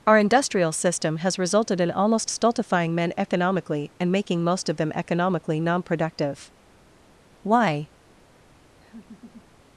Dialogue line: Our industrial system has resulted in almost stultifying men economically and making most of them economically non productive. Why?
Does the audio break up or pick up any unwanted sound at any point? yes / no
yes